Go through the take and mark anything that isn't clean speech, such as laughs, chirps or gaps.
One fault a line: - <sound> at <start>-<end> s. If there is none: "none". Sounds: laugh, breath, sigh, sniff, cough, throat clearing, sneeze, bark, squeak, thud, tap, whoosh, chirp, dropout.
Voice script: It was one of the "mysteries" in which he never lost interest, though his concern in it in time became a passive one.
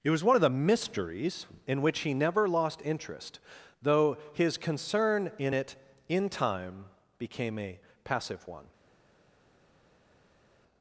none